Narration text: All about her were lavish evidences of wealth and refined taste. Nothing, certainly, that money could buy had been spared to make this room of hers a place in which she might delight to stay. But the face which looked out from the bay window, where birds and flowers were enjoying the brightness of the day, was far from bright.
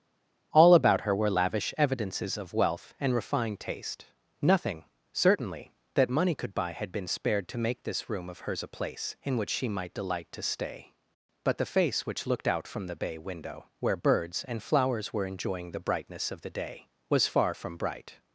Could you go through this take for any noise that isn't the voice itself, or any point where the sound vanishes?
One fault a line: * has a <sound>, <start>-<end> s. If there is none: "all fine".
all fine